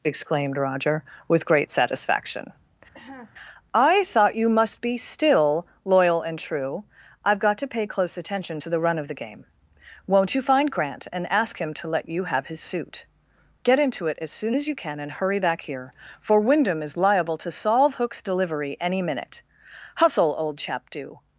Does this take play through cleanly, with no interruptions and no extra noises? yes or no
no